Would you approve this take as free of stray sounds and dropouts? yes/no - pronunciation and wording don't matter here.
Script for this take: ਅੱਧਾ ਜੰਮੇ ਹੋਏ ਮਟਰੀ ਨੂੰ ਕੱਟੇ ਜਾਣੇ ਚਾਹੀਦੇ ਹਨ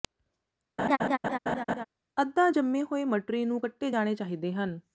no